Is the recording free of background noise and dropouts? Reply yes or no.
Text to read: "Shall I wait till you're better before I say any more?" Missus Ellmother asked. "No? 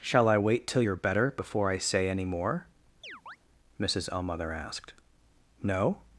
no